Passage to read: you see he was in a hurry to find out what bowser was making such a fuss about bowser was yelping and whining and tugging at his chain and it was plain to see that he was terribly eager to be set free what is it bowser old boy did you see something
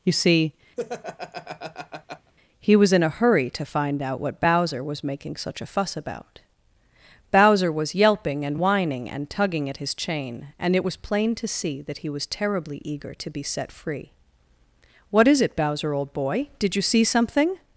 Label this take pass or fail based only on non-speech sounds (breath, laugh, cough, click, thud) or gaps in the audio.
fail